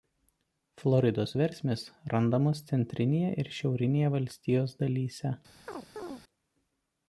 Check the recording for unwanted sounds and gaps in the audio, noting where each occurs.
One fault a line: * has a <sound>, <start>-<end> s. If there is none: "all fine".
* has a chirp, 5.7-6.2 s